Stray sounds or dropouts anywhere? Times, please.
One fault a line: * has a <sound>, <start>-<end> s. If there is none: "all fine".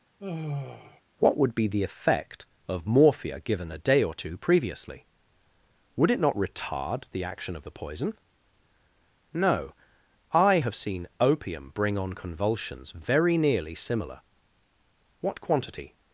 * has a sigh, 0.2-1.0 s